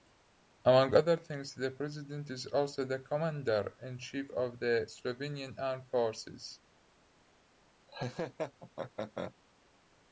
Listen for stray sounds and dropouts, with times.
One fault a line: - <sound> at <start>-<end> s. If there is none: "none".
- laugh at 7.9-9.3 s